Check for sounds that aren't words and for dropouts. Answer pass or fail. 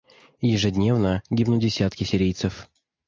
pass